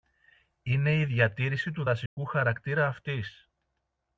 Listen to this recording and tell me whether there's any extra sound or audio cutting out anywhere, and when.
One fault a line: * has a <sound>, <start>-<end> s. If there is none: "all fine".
* has a dropout, 2.1-2.2 s